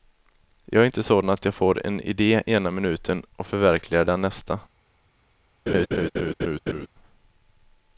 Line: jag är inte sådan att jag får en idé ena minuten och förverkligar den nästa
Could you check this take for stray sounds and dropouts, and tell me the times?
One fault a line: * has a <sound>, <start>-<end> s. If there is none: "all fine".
* has a laugh, 5.7-6.9 s